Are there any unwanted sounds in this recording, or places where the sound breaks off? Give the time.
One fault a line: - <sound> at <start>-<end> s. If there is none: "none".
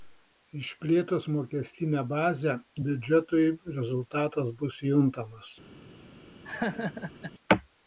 - laugh at 6.4-7.3 s